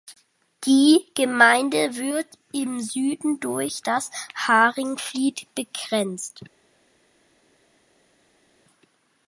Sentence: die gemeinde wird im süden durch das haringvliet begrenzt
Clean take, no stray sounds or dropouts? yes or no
yes